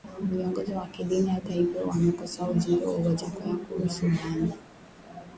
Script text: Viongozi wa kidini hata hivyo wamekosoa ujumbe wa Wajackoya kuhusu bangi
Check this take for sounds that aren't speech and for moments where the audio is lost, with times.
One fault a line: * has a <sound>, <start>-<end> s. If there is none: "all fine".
all fine